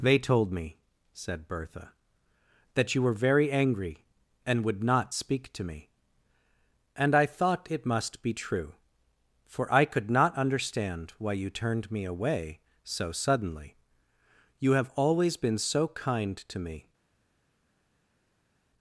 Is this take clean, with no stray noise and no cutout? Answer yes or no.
yes